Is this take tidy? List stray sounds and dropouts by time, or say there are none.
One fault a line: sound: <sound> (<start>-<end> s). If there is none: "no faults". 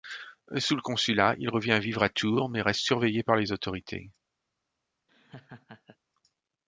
sound: laugh (5.1-6.0 s)